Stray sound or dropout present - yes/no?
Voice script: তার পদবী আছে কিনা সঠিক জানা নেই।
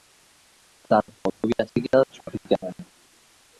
yes